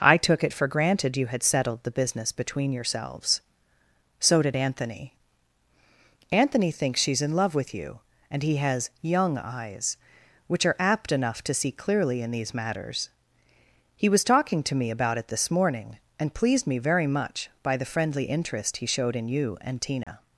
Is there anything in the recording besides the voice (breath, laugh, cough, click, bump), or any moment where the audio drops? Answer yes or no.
yes